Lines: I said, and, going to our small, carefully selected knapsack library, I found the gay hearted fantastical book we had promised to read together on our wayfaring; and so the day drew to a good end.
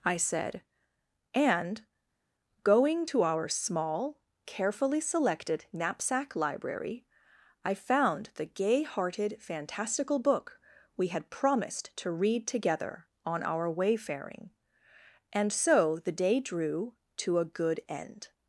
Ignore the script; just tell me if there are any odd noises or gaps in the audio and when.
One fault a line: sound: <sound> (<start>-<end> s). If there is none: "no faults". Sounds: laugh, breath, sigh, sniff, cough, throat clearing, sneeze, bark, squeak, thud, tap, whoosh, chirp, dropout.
no faults